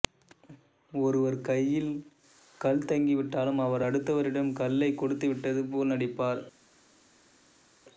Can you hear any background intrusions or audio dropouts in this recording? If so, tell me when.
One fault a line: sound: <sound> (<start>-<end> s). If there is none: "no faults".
no faults